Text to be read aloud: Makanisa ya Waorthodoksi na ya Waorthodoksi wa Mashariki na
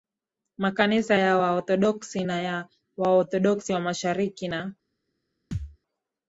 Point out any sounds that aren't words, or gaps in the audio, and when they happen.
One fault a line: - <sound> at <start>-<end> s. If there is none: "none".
- thud at 5.5-5.8 s